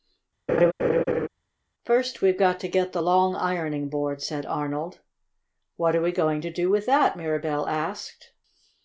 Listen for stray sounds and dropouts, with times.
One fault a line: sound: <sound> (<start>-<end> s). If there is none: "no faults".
sound: laugh (0.5-1.3 s)